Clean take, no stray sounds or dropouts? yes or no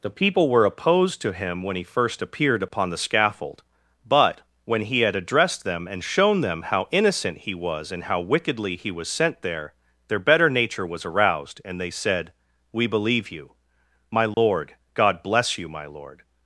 no